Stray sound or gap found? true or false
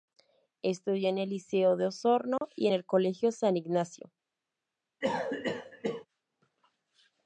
true